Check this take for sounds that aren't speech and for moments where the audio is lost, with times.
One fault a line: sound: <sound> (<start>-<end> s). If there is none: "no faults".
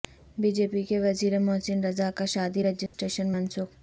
sound: dropout (2.9-2.9 s)